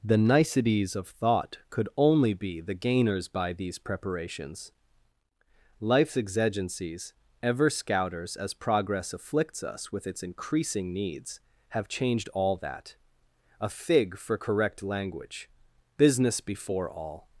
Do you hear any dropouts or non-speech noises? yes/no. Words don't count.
no